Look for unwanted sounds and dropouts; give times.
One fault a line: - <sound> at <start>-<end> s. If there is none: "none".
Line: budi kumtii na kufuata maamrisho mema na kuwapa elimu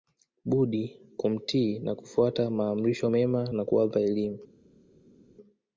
none